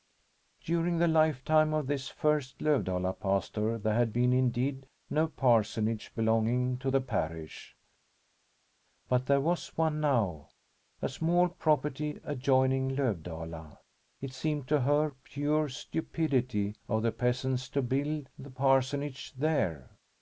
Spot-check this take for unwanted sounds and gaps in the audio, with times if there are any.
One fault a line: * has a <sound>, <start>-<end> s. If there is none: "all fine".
all fine